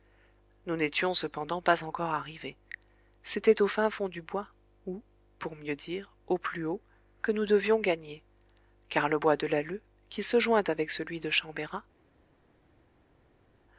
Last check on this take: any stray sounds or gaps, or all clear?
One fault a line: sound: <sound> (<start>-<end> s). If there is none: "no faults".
no faults